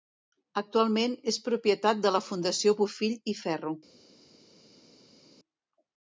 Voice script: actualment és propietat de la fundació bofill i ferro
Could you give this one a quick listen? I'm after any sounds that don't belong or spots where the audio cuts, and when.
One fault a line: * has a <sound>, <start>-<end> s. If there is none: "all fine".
all fine